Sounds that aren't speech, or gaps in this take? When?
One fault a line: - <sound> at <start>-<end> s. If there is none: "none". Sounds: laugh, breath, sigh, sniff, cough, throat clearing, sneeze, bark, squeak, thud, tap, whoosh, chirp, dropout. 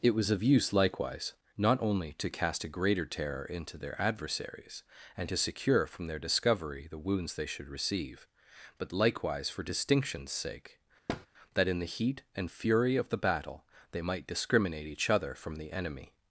- thud at 11.1-11.3 s